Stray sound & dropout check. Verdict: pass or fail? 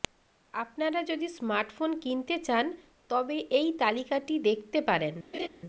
fail